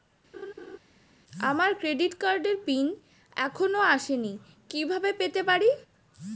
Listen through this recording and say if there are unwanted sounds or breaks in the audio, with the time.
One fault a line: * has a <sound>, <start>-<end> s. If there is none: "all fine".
* has a laugh, 0.3-0.8 s